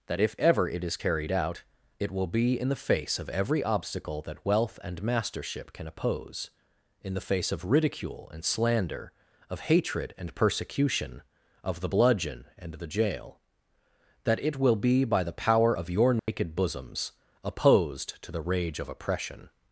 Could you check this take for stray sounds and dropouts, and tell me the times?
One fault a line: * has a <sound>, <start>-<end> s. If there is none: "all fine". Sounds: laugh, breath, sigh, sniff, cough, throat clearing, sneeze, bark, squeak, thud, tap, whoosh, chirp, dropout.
* has a dropout, 16.2-16.3 s